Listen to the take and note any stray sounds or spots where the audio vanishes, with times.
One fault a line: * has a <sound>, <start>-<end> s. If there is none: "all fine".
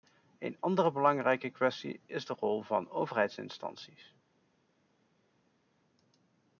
all fine